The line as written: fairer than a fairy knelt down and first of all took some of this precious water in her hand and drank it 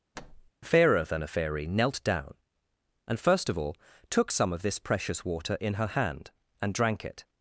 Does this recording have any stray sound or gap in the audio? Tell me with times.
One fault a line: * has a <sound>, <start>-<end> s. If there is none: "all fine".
* has a thud, 0.1-0.5 s